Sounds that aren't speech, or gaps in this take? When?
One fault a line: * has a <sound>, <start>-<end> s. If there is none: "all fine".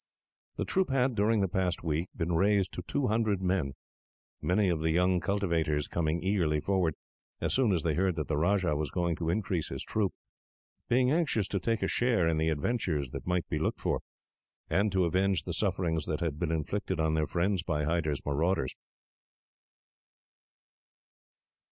all fine